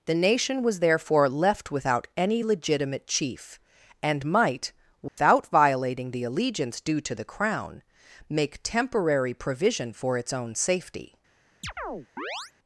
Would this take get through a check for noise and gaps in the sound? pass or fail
fail